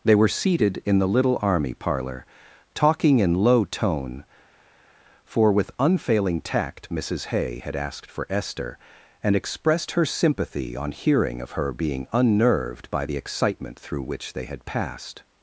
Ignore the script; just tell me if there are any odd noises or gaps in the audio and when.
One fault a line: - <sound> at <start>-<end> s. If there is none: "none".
none